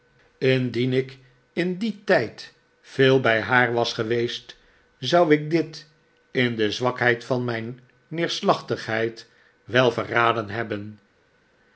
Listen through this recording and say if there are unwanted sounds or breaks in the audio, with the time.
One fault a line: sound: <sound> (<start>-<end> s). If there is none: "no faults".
no faults